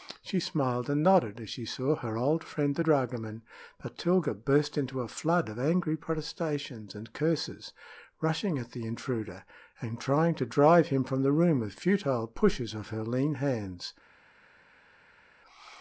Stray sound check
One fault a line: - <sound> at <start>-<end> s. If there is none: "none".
none